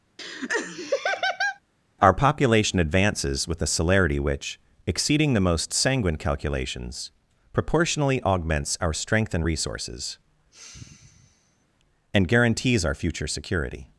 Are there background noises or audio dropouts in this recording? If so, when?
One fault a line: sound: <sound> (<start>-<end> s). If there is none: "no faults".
sound: laugh (0.2-1.6 s)
sound: sigh (10.5-11.7 s)